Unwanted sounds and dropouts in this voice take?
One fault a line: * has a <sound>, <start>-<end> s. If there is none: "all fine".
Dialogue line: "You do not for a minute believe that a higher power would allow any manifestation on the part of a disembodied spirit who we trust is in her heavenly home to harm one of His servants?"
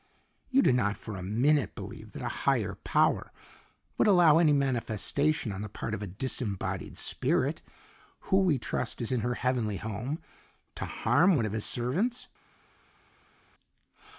all fine